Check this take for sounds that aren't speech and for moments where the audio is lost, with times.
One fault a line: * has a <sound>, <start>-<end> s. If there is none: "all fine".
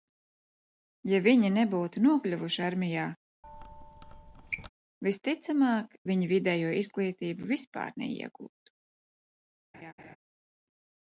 * has a squeak, 3.4-4.7 s
* has a laugh, 9.7-10.2 s